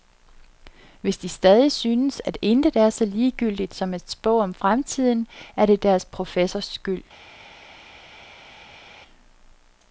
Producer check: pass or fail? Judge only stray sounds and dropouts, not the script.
pass